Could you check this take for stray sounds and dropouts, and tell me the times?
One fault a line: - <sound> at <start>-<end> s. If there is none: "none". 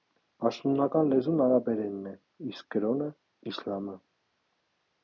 none